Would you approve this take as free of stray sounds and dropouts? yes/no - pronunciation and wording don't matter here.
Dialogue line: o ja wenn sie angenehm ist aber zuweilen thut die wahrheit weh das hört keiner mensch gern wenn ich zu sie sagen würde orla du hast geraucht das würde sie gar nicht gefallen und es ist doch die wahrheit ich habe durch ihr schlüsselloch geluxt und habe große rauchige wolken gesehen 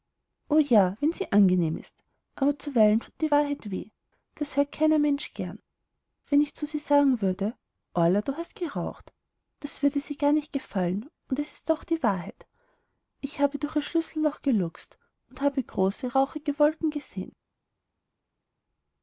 yes